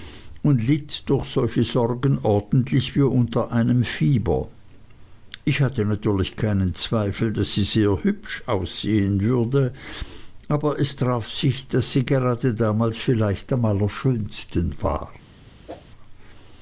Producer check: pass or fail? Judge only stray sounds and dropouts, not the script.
fail